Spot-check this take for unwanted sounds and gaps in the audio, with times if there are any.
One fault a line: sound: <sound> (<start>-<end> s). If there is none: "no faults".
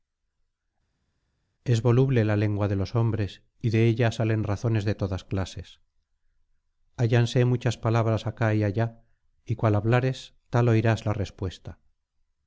no faults